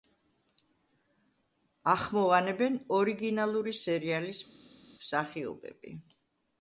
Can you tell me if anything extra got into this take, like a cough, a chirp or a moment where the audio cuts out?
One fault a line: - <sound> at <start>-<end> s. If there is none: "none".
none